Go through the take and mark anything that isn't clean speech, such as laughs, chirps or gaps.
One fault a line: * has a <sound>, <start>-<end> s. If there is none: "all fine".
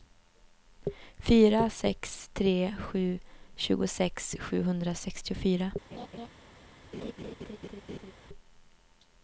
* has a laugh, 5.9-6.3 s
* has a laugh, 6.9-8.1 s